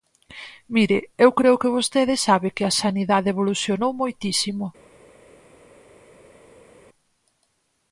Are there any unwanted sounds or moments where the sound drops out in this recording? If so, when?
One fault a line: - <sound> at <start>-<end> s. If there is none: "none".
none